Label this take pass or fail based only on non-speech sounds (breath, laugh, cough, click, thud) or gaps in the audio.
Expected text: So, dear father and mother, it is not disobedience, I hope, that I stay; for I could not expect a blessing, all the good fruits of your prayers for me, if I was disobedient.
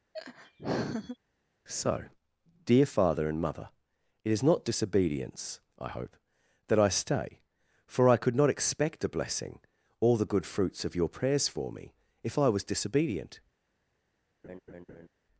fail